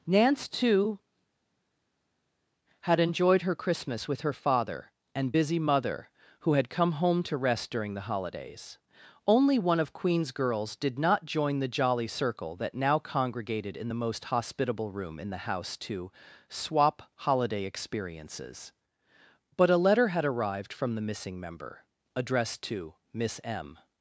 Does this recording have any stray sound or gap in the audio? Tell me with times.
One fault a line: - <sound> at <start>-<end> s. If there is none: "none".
none